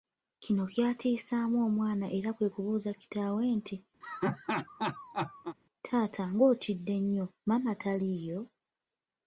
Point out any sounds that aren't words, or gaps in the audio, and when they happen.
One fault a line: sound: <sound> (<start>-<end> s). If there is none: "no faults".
sound: laugh (4.0-5.6 s)